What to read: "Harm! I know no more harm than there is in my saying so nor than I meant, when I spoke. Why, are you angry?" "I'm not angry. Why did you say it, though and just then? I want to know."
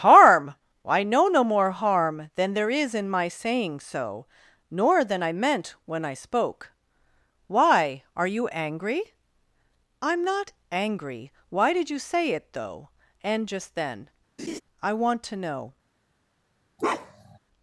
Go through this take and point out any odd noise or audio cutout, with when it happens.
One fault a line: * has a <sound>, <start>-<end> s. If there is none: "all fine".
* has a laugh, 14.4-14.6 s
* has a bark, 16.8-17.4 s